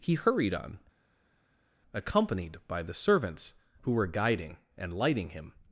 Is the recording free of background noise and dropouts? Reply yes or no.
yes